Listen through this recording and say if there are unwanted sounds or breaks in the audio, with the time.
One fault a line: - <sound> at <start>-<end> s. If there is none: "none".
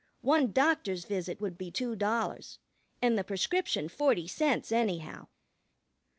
none